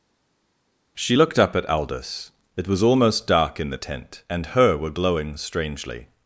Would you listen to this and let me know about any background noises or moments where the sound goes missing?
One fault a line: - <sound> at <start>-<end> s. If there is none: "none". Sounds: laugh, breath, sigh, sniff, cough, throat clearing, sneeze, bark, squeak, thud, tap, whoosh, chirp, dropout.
none